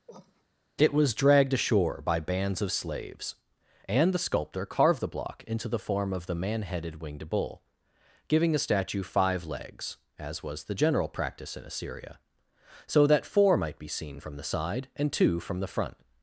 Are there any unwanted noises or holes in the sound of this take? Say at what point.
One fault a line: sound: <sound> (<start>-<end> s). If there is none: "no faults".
sound: cough (0.1-0.4 s)